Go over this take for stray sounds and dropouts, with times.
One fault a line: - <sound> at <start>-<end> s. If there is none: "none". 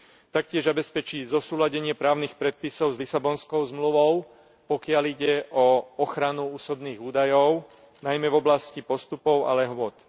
none